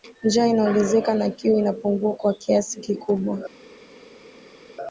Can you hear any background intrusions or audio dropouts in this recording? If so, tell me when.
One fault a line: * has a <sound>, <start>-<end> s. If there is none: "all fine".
all fine